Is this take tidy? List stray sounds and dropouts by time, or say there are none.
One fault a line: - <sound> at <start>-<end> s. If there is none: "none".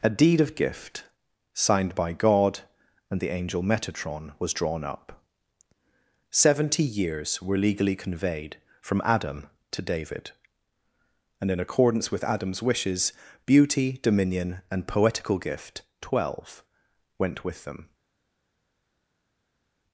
none